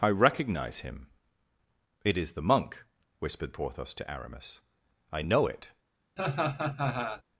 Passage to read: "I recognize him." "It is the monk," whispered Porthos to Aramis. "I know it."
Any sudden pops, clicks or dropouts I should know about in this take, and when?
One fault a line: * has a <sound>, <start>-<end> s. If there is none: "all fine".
* has a laugh, 6.2-7.2 s